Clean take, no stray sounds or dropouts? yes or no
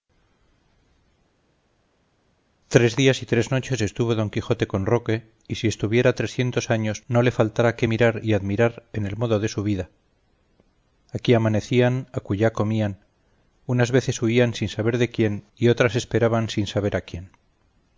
yes